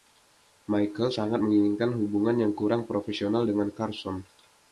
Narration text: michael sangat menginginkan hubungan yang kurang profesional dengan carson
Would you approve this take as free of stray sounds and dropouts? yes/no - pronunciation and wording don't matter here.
yes